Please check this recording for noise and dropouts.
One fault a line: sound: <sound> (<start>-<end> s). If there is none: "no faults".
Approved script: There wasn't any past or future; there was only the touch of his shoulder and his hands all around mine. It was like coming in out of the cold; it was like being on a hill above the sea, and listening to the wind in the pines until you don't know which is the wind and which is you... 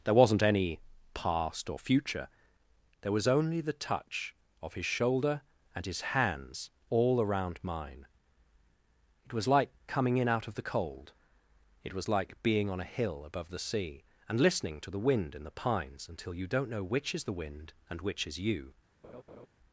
sound: laugh (19.0-19.5 s)